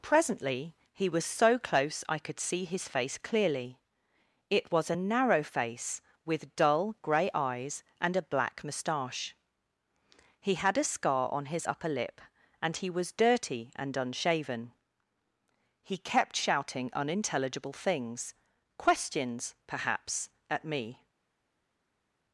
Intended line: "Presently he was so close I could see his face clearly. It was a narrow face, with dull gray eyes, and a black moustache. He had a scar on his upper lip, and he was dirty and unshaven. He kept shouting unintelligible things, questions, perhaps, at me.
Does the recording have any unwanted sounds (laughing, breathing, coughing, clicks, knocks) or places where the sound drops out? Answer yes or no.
no